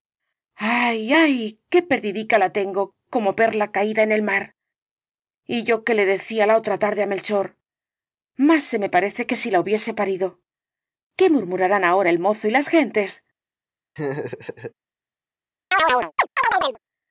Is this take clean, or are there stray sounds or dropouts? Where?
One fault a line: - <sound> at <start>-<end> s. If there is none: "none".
- laugh at 14.0-14.7 s
- chirp at 15.7-16.8 s